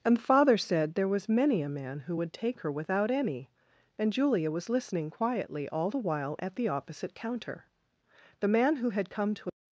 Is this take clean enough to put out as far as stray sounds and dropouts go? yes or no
yes